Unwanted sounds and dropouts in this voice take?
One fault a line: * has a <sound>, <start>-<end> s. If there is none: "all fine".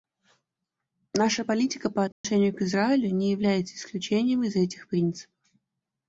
* has a dropout, 2.1-2.2 s